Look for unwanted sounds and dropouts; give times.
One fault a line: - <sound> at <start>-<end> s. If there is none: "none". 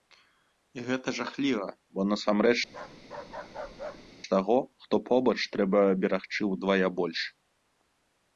- bark at 2.7-4.1 s